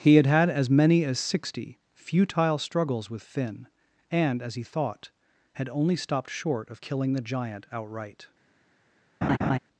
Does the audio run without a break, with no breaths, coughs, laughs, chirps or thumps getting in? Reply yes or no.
no